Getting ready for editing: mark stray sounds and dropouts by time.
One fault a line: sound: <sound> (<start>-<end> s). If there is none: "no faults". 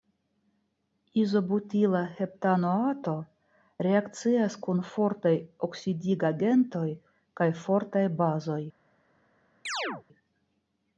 sound: chirp (9.7-10.0 s)